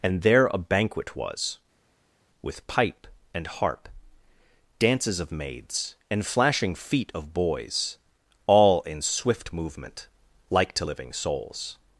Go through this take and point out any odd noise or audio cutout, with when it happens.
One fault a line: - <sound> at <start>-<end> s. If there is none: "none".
none